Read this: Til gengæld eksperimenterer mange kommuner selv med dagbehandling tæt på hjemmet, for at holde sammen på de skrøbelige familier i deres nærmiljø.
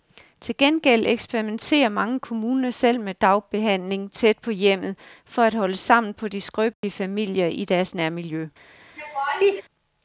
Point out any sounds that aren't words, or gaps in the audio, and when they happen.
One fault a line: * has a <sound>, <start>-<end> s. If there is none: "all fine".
* has a dropout, 6.7-6.8 s
* has a laugh, 9.0-9.6 s